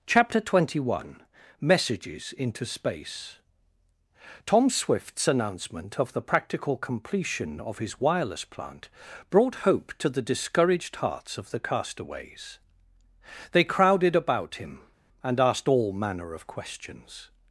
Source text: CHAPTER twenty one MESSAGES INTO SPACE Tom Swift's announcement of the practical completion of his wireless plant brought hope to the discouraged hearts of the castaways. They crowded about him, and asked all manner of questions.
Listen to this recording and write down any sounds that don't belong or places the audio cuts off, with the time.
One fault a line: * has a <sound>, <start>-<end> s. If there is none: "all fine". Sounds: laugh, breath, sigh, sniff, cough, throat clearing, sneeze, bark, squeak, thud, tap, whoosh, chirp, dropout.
all fine